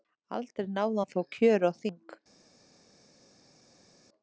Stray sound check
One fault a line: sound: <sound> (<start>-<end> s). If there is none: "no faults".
no faults